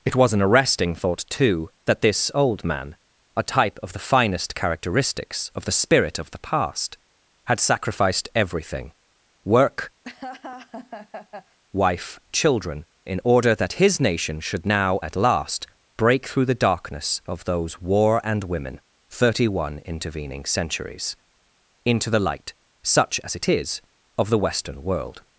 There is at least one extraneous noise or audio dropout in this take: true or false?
true